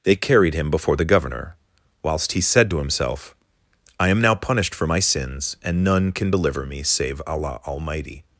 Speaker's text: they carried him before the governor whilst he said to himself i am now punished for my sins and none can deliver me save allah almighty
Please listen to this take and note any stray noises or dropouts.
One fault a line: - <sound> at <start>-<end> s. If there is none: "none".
none